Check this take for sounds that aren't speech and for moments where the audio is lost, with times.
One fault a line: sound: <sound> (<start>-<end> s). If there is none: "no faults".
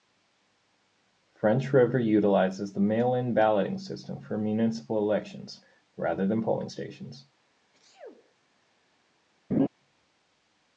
sound: sneeze (7.7-8.3 s)
sound: laugh (9.5-9.7 s)